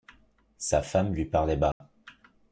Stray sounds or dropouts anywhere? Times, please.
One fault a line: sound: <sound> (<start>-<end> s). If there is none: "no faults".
sound: dropout (1.7-1.8 s)